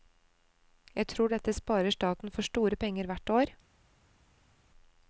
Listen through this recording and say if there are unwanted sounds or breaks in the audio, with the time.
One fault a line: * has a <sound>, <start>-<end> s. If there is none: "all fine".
all fine